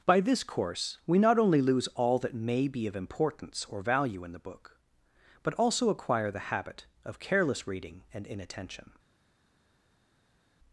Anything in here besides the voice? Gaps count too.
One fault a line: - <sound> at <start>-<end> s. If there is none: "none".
none